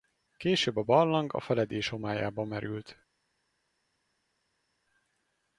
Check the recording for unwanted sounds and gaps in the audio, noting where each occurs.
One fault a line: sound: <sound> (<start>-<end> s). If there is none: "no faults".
no faults